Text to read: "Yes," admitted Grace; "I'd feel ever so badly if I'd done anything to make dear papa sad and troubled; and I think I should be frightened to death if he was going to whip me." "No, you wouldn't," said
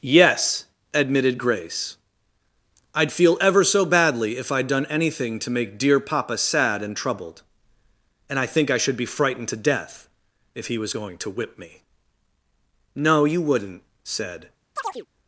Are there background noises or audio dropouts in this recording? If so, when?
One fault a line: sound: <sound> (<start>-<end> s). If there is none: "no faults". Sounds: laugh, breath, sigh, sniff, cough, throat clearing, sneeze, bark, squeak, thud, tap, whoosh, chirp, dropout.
sound: chirp (14.8-15.1 s)